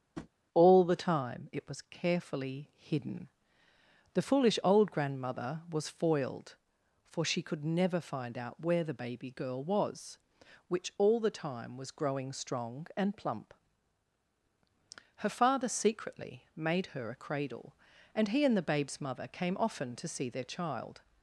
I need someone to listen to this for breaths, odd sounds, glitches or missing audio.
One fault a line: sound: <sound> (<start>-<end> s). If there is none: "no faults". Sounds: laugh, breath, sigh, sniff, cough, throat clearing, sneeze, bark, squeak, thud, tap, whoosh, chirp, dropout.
sound: tap (0.2-0.3 s)